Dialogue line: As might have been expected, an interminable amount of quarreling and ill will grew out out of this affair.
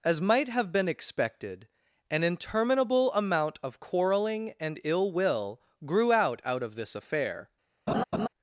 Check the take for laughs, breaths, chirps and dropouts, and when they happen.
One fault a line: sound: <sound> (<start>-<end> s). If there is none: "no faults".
sound: laugh (7.9-8.3 s)